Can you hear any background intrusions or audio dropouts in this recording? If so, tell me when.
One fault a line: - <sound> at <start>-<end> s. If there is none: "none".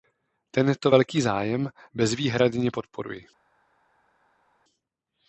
none